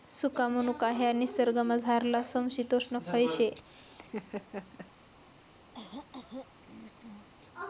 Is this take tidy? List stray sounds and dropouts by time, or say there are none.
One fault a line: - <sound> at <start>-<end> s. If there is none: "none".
- laugh at 3.6-4.9 s
- throat clearing at 5.7-7.3 s